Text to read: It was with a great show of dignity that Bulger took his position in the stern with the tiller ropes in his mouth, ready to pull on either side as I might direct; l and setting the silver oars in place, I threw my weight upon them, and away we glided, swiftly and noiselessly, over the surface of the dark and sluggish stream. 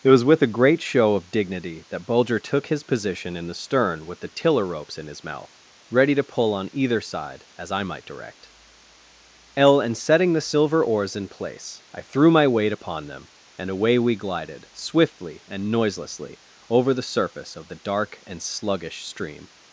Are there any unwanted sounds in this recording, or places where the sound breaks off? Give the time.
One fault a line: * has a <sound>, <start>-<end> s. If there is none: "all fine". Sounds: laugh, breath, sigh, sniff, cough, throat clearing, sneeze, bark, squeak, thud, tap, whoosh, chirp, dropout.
all fine